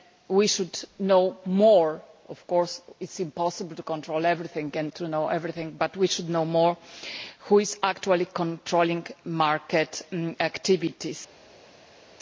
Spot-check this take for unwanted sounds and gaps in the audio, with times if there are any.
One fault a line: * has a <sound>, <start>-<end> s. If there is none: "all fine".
all fine